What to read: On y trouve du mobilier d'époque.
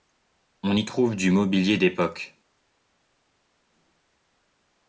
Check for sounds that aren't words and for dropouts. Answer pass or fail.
pass